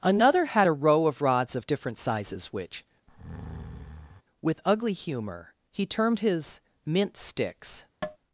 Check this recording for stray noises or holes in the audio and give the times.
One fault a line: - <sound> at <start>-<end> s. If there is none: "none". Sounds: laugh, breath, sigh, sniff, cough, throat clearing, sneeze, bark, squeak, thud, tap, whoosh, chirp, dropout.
- breath at 3.1-4.2 s
- tap at 8.0-8.2 s